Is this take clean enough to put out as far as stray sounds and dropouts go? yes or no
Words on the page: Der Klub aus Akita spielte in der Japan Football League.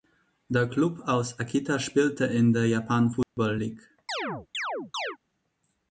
no